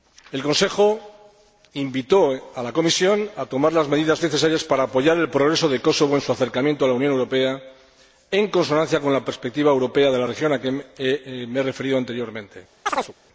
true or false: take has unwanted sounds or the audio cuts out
true